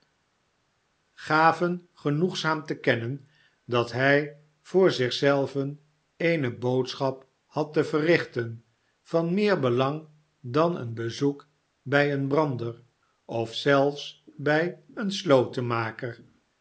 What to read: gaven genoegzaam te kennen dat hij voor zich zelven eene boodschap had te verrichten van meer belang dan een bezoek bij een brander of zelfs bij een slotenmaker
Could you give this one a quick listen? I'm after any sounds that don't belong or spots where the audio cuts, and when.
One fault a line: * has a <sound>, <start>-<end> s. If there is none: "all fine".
all fine